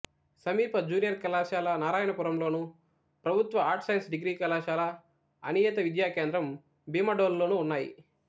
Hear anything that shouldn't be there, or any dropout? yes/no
no